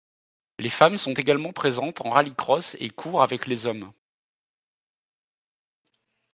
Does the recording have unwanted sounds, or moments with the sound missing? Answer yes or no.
no